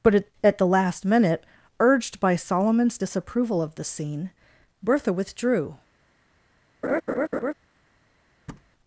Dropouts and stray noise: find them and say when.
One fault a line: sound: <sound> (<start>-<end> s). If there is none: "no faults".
sound: laugh (6.8-7.5 s)
sound: thud (8.5-8.7 s)